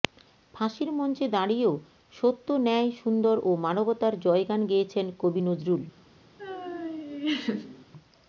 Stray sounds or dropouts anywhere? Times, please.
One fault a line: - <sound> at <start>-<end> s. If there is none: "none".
- laugh at 6.4-7.9 s